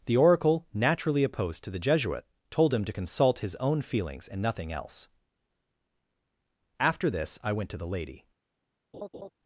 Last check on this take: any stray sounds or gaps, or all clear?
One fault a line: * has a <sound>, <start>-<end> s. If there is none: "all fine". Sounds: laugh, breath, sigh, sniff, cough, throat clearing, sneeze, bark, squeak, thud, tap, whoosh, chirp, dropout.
* has a laugh, 8.9-9.3 s